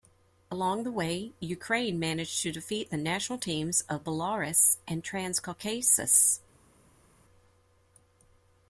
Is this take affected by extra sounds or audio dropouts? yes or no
no